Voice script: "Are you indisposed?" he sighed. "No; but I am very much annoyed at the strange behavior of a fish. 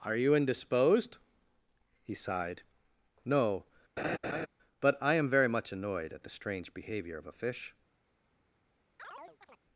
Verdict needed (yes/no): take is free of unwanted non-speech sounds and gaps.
no